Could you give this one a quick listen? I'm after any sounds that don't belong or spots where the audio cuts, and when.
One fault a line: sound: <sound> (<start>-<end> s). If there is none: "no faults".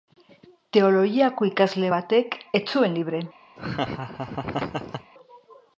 sound: laugh (3.6-5.1 s)